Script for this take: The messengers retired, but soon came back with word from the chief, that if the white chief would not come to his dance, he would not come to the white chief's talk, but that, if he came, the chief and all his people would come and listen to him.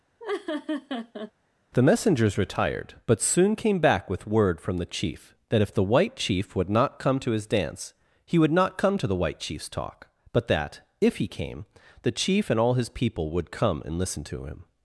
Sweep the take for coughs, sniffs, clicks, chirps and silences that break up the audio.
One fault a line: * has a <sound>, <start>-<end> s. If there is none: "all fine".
* has a laugh, 0.2-1.3 s